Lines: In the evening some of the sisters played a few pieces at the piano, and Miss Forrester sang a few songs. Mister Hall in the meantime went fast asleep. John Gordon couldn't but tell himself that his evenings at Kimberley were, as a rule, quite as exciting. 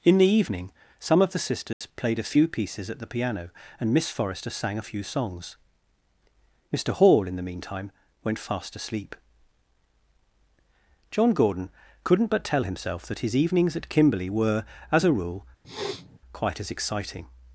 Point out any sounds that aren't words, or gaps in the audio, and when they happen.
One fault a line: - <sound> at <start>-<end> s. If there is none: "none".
- dropout at 1.7-1.8 s
- sniff at 15.6-16.2 s